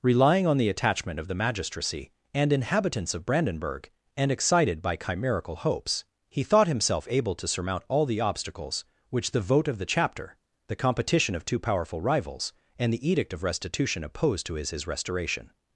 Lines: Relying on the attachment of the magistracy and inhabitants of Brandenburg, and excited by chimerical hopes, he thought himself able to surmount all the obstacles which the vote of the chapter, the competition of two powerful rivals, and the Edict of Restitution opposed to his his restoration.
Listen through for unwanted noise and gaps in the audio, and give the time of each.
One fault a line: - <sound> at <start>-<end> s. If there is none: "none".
none